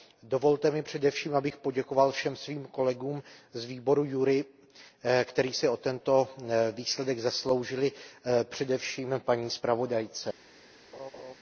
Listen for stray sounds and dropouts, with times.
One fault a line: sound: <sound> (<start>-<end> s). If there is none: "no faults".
sound: laugh (10.9-11.3 s)